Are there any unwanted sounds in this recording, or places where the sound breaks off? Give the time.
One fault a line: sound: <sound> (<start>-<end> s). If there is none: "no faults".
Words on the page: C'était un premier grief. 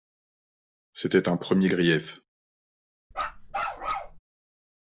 sound: bark (3.1-4.2 s)